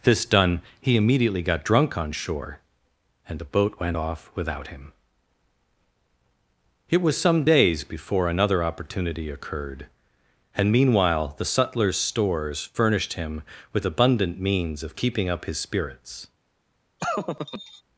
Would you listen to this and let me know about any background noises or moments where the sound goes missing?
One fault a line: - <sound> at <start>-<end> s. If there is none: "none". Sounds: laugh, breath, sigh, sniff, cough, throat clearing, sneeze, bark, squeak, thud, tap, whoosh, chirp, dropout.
- laugh at 17.0-17.8 s